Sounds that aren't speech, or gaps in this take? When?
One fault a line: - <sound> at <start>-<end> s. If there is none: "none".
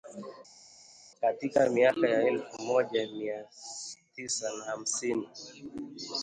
none